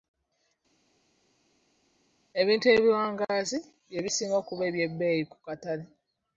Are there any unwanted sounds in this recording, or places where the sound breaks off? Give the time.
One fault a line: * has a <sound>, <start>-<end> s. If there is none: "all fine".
all fine